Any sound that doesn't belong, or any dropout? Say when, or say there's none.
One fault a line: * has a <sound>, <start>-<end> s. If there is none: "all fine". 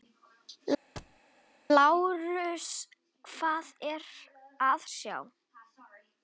* has a thud, 1.0-1.2 s